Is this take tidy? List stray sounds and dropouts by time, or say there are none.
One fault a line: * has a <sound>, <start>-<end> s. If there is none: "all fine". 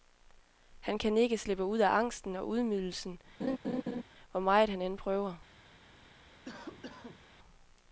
* has a laugh, 3.4-4.0 s
* has a cough, 6.4-7.2 s